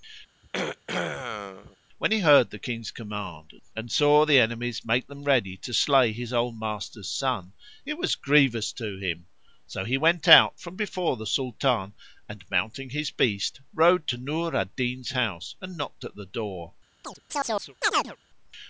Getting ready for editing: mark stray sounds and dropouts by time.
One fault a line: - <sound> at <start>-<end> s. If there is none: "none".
- throat clearing at 0.4-1.8 s
- chirp at 17.0-18.2 s